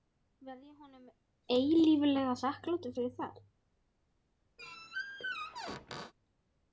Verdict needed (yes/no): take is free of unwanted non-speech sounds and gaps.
no